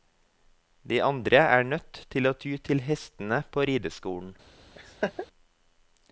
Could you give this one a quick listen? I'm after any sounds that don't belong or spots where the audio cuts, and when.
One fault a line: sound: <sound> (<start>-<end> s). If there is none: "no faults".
sound: laugh (4.7-5.3 s)